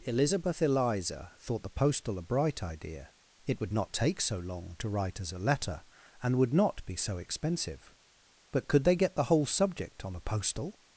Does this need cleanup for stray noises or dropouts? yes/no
no